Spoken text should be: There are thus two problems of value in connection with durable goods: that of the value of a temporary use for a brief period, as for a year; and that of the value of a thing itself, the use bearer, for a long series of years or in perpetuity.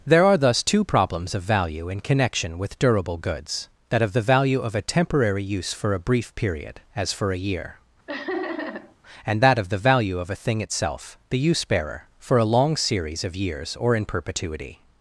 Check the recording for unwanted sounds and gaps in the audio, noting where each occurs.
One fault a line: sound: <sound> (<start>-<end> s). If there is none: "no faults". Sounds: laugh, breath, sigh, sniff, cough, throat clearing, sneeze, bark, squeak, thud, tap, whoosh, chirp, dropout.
sound: laugh (8.1-9.0 s)